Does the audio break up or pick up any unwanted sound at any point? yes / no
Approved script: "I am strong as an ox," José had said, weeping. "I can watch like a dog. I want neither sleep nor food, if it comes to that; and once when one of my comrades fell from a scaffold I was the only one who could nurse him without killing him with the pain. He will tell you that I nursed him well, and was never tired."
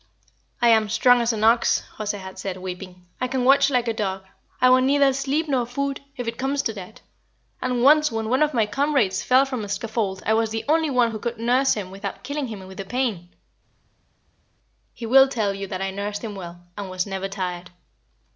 no